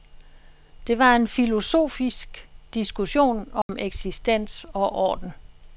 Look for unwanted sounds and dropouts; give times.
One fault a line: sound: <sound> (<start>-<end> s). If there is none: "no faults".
sound: dropout (3.6-3.7 s)